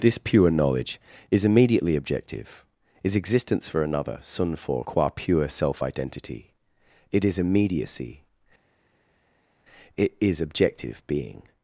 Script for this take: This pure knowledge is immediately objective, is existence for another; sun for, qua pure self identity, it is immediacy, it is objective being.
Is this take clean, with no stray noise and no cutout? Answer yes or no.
yes